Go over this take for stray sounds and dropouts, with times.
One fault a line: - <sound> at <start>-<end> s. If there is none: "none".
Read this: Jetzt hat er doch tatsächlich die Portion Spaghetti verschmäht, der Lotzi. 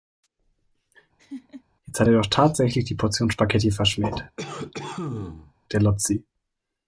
- laugh at 1.2-1.6 s
- cough at 4.4-5.5 s